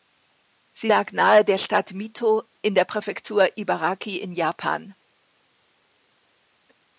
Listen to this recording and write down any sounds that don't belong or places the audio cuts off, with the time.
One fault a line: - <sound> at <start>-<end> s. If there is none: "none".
none